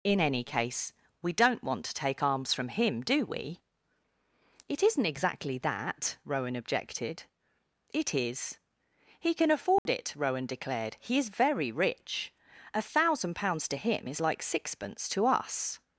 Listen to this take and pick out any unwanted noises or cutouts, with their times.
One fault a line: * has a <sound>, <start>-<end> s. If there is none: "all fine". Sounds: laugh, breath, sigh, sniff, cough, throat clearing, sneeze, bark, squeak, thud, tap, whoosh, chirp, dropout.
* has a dropout, 9.8-9.9 s